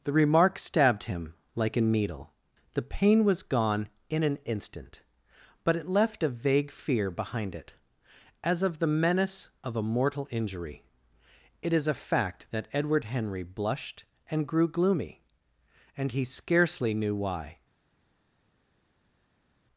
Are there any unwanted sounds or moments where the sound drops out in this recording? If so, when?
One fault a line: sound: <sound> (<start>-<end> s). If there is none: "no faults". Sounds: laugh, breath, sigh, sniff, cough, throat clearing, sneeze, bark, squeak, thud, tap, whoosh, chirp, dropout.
no faults